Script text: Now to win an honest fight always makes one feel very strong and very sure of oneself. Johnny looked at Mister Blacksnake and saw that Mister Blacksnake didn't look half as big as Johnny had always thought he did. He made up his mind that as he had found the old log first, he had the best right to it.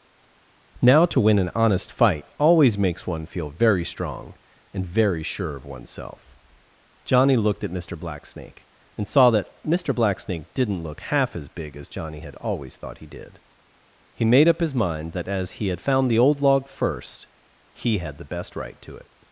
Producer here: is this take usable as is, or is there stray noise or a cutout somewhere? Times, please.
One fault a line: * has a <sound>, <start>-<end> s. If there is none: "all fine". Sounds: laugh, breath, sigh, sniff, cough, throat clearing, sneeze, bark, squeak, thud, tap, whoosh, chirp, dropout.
all fine